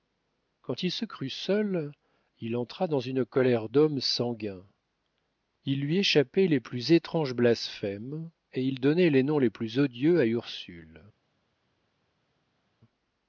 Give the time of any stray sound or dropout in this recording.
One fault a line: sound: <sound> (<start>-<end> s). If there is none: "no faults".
no faults